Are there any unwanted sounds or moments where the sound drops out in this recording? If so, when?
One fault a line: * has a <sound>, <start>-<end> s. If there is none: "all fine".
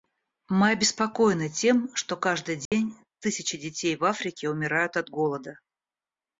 * has a dropout, 2.7-2.7 s